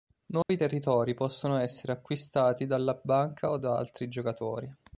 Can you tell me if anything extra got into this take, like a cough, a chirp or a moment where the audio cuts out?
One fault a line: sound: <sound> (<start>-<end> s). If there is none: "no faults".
sound: dropout (0.4-0.5 s)